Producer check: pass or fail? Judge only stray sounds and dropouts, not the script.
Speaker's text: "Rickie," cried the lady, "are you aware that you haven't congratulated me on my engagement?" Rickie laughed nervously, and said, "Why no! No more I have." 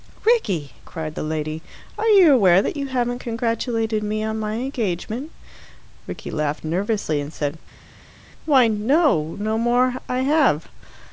pass